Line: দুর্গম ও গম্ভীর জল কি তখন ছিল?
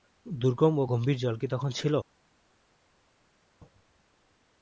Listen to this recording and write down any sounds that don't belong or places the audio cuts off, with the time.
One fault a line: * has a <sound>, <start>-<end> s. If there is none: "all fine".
all fine